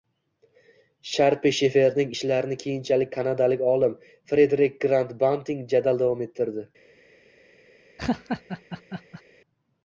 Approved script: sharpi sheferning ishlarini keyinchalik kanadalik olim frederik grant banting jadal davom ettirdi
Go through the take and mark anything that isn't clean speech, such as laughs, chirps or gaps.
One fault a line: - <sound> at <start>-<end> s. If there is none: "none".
- laugh at 8.0-9.2 s